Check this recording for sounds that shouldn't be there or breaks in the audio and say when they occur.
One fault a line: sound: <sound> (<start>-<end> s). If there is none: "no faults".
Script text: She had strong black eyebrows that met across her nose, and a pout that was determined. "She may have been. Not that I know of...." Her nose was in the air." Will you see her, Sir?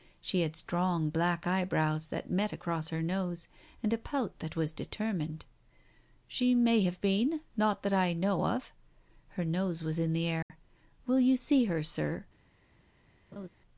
sound: dropout (10.4-10.5 s)
sound: laugh (13.3-13.5 s)